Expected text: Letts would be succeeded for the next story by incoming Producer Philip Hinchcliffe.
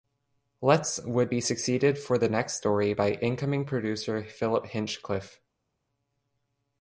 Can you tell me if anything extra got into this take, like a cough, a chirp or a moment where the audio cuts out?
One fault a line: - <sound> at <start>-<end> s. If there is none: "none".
none